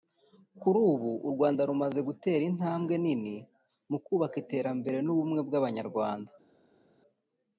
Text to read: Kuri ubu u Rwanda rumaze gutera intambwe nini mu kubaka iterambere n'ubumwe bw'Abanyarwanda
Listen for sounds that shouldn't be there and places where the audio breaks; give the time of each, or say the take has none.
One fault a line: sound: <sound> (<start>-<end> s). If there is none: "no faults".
no faults